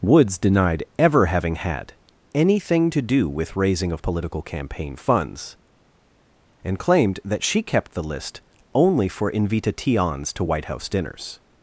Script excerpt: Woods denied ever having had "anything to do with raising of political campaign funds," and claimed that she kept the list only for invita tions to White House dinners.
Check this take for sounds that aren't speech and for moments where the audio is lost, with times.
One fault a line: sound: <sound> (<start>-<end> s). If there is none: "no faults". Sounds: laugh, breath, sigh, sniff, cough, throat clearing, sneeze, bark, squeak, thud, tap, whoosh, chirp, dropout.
no faults